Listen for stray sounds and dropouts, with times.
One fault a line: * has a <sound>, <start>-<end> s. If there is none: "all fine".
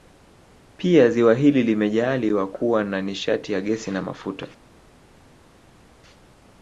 all fine